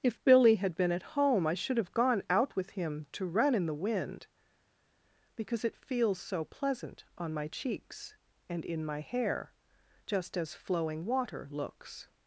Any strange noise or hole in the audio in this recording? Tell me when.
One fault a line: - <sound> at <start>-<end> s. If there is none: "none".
none